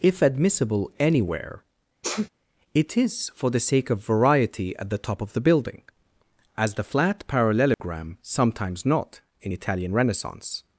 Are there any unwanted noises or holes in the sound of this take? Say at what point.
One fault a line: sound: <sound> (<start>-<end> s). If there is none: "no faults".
sound: sneeze (2.0-2.3 s)
sound: dropout (7.7-7.8 s)